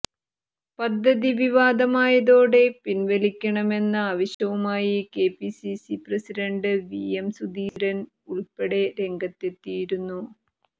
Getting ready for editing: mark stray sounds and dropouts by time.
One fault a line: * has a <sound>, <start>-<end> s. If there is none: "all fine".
* has a dropout, 4.3-4.4 s
* has a dropout, 7.7-7.8 s